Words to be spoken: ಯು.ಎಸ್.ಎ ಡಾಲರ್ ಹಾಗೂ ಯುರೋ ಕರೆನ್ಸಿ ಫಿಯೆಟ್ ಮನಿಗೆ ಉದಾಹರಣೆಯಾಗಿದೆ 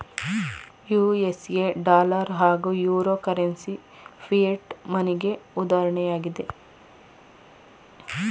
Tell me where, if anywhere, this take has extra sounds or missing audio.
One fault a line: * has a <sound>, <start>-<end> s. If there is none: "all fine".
all fine